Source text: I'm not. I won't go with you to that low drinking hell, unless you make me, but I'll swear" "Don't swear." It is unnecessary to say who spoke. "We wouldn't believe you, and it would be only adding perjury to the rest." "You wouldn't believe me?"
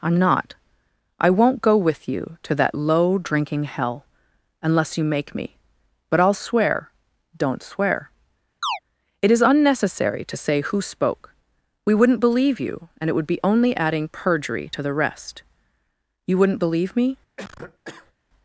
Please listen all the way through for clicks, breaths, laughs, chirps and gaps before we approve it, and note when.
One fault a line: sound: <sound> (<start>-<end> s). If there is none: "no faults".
sound: chirp (8.6-8.8 s)
sound: cough (17.4-18.1 s)